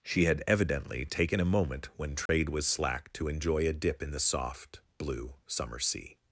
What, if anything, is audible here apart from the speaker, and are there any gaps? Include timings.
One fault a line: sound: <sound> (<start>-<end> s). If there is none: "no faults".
sound: dropout (2.3-2.3 s)